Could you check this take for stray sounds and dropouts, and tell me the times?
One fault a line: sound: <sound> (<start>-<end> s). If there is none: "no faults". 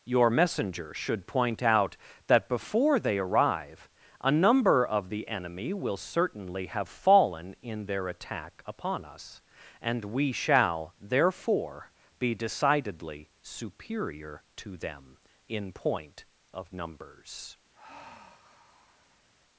sound: sigh (17.7-19.3 s)